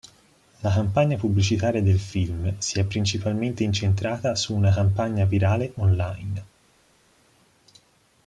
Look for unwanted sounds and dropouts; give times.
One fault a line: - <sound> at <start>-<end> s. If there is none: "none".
none